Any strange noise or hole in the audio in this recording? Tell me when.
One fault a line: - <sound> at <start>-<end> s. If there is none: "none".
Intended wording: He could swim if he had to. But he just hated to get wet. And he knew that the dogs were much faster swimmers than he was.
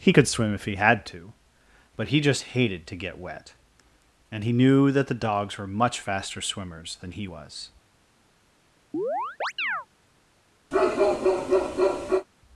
- chirp at 8.9-9.9 s
- bark at 10.7-12.3 s